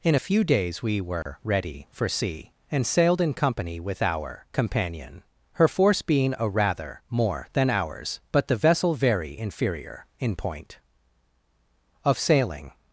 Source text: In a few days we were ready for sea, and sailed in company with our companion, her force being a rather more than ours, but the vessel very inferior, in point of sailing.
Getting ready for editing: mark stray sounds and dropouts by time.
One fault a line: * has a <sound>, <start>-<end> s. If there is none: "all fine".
* has a dropout, 1.2-1.3 s